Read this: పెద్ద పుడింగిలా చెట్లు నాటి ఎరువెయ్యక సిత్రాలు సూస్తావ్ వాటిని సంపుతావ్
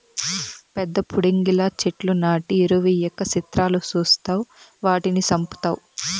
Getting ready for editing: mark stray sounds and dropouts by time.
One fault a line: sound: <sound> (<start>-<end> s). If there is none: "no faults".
no faults